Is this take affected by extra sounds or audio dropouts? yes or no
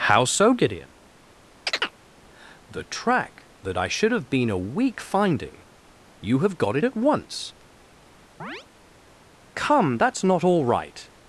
yes